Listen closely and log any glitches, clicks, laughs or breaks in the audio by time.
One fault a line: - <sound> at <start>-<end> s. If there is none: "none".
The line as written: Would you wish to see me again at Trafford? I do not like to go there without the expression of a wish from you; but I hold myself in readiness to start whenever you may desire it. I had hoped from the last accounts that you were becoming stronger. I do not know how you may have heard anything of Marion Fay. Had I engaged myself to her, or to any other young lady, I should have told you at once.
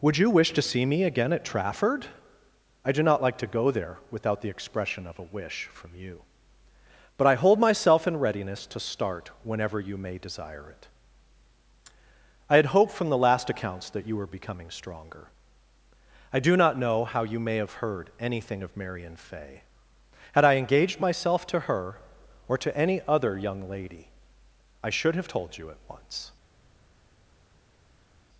none